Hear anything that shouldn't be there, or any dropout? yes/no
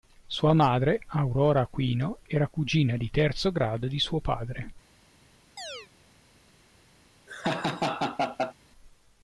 yes